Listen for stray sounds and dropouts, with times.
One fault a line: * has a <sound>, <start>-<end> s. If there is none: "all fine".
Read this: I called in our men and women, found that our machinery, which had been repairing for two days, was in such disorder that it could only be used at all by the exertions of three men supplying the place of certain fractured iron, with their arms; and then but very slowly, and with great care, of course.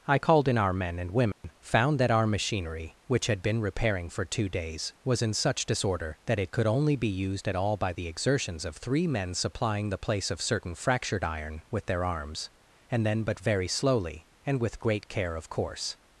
* has a dropout, 1.3-1.4 s